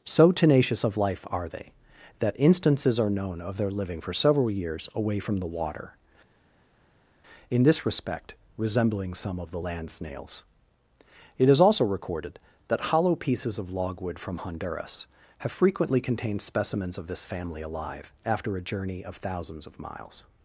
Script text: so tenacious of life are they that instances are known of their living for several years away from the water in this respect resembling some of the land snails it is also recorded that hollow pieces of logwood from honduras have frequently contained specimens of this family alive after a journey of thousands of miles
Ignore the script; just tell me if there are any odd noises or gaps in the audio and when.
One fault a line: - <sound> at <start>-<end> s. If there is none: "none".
none